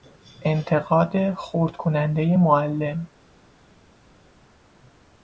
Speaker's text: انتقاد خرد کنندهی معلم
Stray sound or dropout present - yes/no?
no